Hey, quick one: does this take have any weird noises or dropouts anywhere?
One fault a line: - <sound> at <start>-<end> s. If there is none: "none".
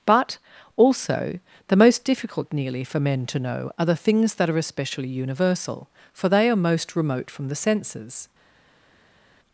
none